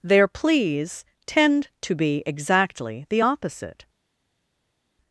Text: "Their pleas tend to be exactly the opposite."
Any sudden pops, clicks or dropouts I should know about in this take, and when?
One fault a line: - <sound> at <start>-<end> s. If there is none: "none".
none